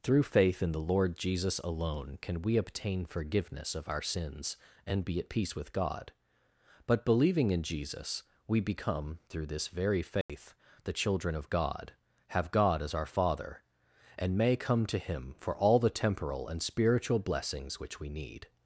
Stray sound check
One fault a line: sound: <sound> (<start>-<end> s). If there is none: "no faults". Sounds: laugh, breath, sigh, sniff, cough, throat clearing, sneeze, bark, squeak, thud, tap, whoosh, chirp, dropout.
sound: dropout (10.2-10.3 s)